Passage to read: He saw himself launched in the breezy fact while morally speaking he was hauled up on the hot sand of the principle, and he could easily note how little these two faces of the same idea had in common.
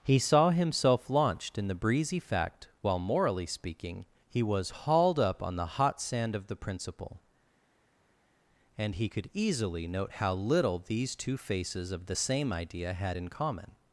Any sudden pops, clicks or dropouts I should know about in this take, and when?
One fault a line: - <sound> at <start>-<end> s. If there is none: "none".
none